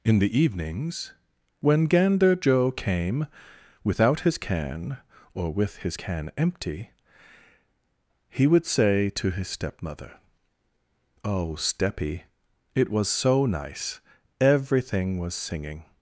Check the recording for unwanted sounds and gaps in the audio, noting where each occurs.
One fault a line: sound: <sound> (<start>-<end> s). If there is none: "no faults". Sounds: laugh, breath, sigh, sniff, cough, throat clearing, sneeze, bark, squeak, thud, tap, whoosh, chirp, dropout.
no faults